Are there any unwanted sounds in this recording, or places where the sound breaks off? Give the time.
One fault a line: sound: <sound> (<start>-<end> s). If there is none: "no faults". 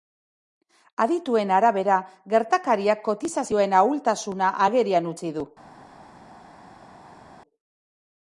no faults